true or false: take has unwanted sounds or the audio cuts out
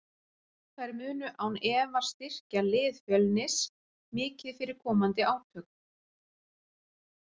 false